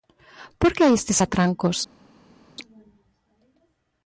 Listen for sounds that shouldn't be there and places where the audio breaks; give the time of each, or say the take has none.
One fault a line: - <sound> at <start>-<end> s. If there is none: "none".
none